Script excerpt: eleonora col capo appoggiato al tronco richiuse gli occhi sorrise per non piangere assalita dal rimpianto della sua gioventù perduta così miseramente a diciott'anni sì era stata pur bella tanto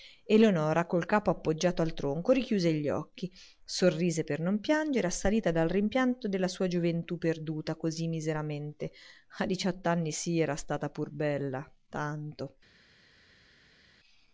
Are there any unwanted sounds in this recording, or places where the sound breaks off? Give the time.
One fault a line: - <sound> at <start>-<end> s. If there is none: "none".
none